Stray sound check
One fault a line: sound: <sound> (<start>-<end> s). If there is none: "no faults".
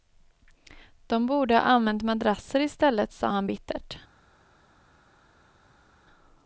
no faults